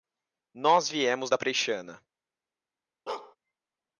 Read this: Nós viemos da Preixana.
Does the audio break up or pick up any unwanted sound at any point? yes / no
yes